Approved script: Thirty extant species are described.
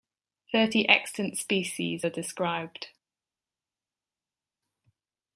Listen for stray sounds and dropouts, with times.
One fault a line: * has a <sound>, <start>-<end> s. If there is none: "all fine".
all fine